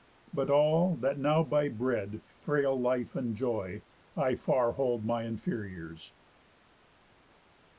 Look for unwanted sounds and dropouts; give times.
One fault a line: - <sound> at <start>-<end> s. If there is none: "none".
none